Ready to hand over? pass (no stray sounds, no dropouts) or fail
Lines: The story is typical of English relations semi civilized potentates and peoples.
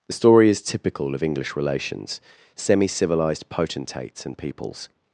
pass